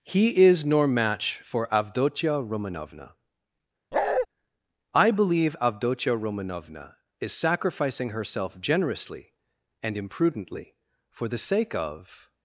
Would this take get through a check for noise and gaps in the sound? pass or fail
fail